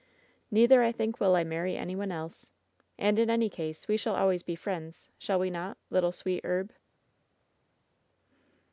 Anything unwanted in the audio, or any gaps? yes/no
no